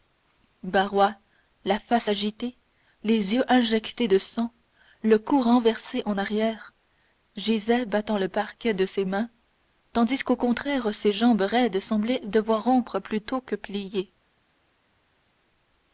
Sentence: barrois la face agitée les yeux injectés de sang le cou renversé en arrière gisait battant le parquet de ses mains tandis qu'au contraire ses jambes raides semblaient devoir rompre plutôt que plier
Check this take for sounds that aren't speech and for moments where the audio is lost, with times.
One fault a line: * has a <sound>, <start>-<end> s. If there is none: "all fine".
all fine